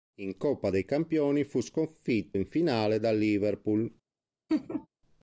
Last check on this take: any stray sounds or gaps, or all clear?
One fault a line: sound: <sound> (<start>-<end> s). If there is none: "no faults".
sound: laugh (4.5-4.9 s)